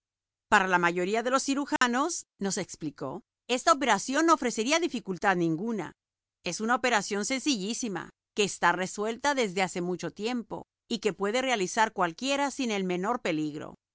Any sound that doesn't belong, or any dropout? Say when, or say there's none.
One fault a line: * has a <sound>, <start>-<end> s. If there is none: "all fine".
* has a dropout, 1.8-1.8 s